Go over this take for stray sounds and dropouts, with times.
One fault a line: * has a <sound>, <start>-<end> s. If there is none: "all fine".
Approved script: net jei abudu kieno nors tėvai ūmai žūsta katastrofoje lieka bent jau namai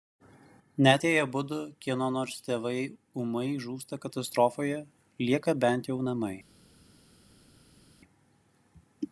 all fine